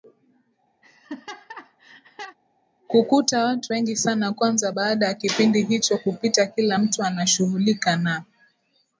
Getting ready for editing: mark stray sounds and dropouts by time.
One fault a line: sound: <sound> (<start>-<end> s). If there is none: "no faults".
sound: laugh (0.8-2.4 s)